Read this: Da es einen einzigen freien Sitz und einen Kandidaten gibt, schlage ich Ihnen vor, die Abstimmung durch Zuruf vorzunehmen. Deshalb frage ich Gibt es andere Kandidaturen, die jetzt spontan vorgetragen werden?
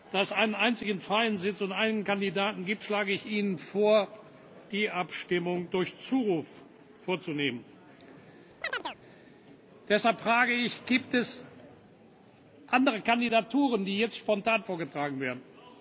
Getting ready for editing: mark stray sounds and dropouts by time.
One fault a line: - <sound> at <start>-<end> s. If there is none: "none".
- chirp at 8.6-9.0 s